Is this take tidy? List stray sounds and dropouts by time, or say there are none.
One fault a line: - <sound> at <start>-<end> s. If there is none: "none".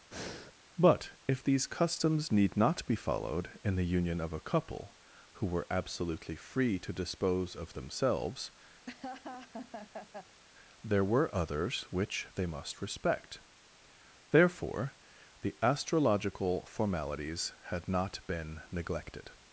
- breath at 0.1-0.5 s
- laugh at 8.9-10.4 s